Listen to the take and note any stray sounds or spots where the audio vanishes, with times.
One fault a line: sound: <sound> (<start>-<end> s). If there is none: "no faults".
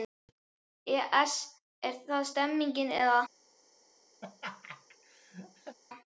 sound: laugh (4.2-5.8 s)